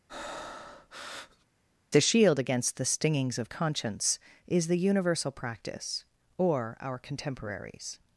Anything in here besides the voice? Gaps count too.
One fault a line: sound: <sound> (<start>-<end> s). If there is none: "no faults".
sound: breath (0.1-1.5 s)